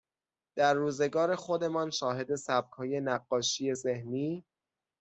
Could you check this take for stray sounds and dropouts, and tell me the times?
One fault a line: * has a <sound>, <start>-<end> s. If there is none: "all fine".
all fine